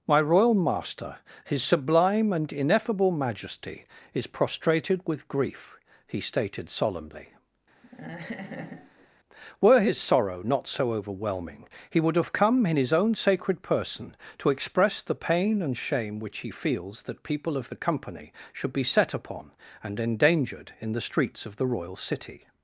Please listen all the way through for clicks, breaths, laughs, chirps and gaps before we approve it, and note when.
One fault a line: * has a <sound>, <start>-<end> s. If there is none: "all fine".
* has a laugh, 7.8-9.1 s